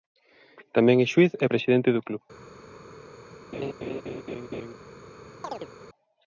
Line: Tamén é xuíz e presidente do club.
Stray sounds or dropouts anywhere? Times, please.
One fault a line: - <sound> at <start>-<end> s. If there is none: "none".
- laugh at 3.5-4.7 s
- chirp at 5.4-5.7 s